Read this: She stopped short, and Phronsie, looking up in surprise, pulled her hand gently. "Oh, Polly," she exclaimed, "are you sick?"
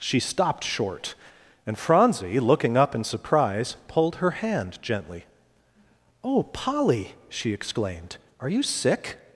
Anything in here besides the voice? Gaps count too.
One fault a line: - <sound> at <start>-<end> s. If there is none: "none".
none